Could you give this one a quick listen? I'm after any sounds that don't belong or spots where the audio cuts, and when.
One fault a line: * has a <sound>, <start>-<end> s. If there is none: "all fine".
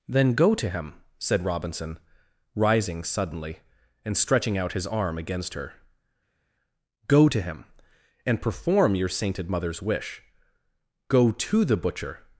all fine